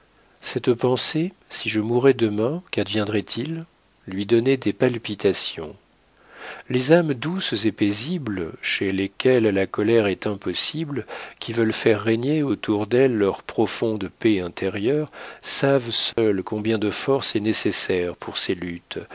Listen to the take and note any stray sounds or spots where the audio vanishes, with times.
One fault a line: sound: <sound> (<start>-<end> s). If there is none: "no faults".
sound: dropout (16.1-16.2 s)